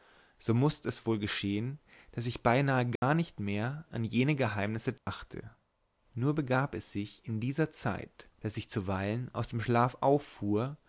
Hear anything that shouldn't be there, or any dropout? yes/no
yes